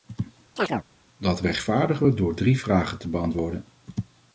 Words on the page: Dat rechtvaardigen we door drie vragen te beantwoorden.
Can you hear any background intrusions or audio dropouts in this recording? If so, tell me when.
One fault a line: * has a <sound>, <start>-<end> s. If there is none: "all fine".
* has a chirp, 0.6-0.8 s